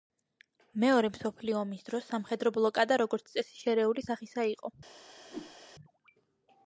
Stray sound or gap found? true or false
true